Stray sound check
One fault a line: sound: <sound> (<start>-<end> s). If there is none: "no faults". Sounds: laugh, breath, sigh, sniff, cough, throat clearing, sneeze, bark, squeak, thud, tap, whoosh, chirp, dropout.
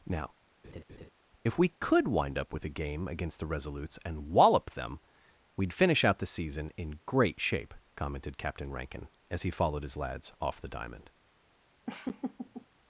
sound: laugh (0.6-1.1 s)
sound: laugh (11.9-12.7 s)